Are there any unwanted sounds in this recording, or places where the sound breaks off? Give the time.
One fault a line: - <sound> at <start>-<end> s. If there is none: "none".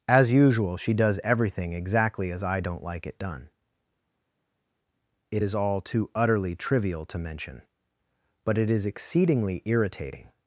none